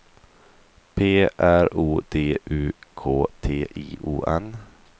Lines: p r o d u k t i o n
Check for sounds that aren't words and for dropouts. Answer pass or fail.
pass